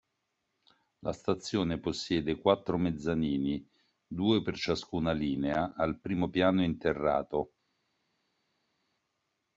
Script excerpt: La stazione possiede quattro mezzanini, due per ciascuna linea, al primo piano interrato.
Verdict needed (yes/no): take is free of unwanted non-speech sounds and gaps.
yes